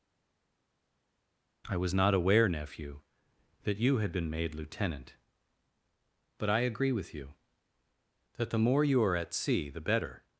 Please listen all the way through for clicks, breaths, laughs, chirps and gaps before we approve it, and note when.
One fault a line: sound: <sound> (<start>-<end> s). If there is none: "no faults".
no faults